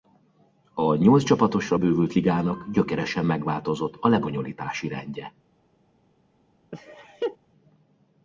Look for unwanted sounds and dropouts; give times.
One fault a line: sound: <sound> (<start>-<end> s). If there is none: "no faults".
sound: laugh (6.7-7.4 s)